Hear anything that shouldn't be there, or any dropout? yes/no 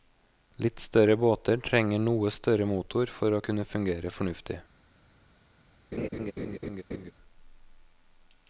yes